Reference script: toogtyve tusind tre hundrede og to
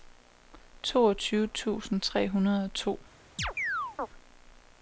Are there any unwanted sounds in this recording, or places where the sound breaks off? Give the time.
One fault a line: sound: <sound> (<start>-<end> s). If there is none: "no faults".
sound: chirp (3.4-4.1 s)